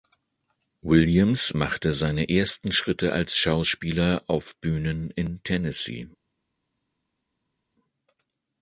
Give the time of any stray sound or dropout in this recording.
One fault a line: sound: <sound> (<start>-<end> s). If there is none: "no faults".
no faults